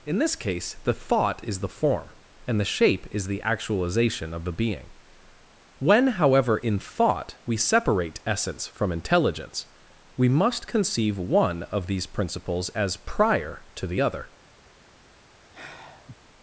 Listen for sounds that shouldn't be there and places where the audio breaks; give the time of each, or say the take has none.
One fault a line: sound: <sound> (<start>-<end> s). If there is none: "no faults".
sound: sigh (15.5-16.2 s)